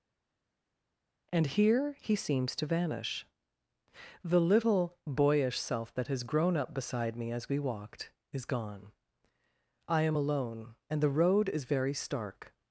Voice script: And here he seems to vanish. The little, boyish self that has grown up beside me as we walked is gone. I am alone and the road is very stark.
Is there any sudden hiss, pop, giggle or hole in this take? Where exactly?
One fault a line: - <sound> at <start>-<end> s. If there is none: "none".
none